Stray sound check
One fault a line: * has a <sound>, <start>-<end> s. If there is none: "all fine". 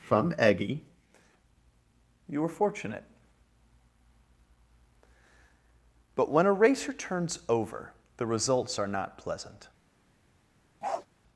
* has a bark, 10.8-11.1 s